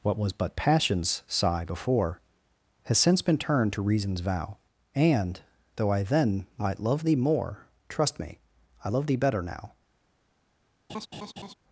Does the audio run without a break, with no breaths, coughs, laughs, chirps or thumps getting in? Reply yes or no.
no